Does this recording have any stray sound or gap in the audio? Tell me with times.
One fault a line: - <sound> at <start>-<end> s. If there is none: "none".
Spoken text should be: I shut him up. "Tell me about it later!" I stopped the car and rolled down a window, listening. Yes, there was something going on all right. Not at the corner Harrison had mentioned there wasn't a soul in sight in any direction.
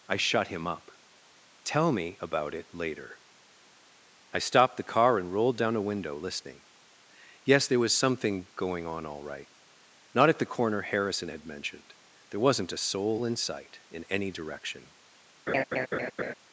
- laugh at 15.5-16.3 s